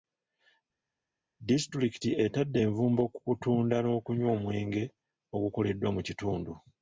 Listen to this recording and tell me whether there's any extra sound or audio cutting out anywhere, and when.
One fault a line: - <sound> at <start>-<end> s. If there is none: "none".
none